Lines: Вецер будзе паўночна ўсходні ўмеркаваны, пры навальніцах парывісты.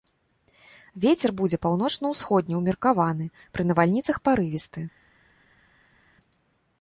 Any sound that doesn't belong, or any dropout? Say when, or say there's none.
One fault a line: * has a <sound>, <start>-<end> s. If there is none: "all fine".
all fine